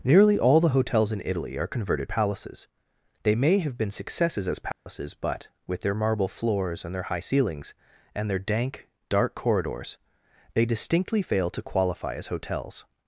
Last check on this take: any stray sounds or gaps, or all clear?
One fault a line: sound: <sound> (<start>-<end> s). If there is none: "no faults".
sound: dropout (4.7-4.9 s)